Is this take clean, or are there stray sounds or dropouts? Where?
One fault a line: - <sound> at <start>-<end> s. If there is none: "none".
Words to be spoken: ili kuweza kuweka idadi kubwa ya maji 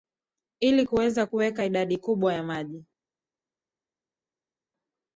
none